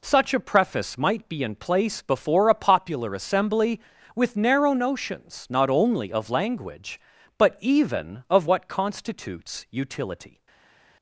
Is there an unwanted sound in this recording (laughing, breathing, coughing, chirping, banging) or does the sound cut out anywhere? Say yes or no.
no